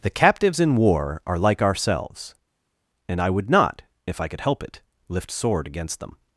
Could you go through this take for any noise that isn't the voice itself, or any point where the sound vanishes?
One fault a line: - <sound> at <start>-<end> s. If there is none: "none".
none